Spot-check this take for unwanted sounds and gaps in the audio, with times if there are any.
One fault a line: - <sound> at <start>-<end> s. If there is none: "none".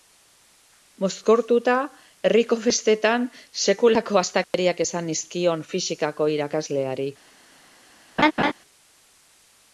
- dropout at 4.4-4.5 s
- laugh at 8.2-8.5 s